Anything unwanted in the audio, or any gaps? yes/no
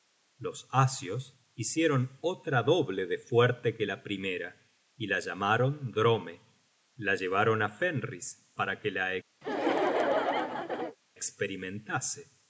yes